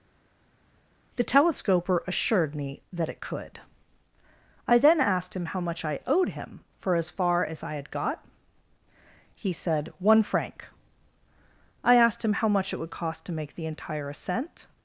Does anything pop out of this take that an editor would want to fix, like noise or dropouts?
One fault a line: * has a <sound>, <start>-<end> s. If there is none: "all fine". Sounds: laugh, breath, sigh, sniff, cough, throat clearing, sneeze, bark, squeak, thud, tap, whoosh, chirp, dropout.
all fine